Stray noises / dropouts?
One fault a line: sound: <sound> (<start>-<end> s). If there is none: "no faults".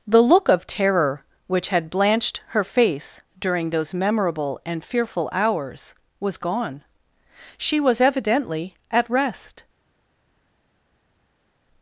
no faults